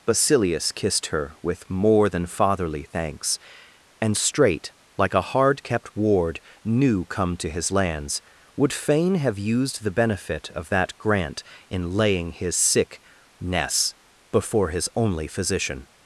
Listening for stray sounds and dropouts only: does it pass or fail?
pass